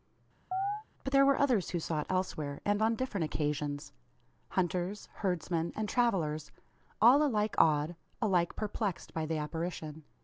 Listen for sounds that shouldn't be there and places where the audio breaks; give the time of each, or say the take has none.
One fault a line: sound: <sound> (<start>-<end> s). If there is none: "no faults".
sound: chirp (0.5-0.8 s)